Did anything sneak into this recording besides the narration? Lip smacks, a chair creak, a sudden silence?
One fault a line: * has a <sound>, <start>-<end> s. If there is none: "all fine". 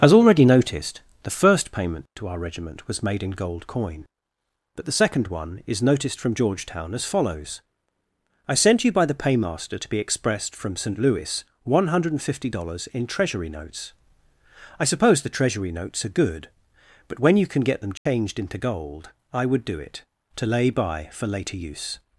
* has a dropout, 18.0-18.1 s